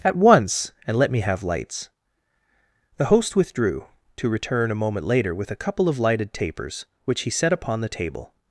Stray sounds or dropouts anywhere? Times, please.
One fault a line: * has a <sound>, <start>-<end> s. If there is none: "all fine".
all fine